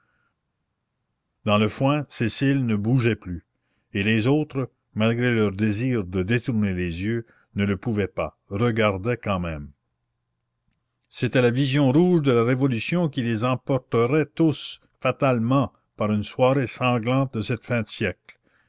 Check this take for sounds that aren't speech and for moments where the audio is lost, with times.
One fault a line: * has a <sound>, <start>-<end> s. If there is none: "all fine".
all fine